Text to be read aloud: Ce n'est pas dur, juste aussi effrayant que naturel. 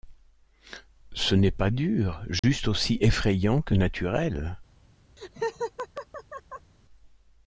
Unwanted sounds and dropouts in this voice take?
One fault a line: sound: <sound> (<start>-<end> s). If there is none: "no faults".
sound: dropout (2.4-2.4 s)
sound: laugh (5.2-6.7 s)